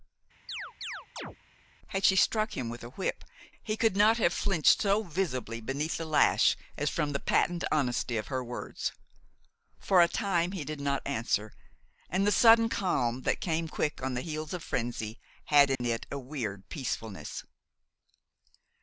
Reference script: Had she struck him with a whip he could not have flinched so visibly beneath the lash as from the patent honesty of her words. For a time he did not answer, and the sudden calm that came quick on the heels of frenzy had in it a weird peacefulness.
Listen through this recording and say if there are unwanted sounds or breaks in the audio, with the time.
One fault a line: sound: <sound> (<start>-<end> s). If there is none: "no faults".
sound: chirp (0.5-1.4 s)
sound: dropout (15.8-15.8 s)